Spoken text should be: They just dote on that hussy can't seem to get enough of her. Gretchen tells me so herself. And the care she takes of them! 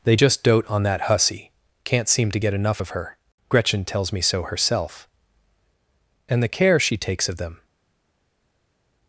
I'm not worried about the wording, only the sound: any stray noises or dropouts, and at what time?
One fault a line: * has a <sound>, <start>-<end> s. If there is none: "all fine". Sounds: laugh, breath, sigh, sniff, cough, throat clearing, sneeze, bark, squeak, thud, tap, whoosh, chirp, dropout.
all fine